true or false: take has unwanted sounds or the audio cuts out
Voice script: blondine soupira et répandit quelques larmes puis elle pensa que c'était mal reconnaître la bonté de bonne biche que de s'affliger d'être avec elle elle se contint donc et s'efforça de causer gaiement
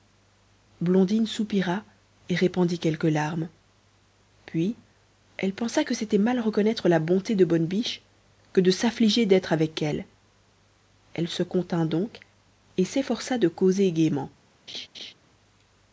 true